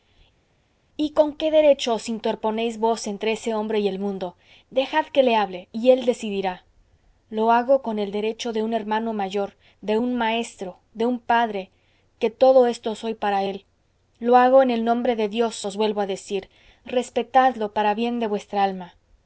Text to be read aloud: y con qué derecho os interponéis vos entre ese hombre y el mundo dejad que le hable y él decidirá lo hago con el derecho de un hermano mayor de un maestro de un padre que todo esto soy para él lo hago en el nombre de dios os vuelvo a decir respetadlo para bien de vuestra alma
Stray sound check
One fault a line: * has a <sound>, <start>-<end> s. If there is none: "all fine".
all fine